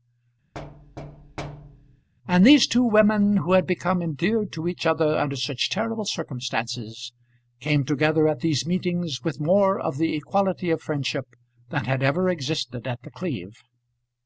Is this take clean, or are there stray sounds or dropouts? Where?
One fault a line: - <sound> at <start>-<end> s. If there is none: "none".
- thud at 0.5-2.1 s